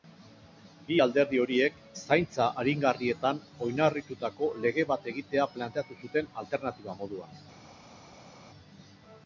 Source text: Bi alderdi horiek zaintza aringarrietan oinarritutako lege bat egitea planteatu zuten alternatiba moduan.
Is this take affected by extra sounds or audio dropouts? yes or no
no